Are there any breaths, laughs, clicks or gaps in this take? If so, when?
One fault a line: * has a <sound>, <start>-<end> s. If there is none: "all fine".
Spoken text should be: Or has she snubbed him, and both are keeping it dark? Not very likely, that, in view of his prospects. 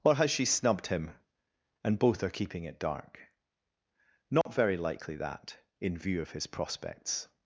* has a dropout, 4.4-4.5 s